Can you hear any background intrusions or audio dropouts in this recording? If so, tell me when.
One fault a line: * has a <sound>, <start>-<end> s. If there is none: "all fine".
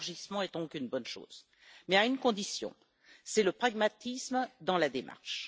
all fine